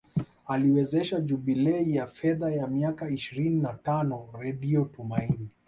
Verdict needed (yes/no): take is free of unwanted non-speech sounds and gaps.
yes